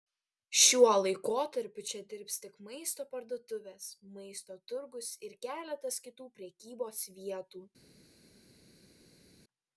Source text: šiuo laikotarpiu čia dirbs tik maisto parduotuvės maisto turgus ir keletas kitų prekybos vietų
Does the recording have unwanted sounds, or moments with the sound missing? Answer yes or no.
no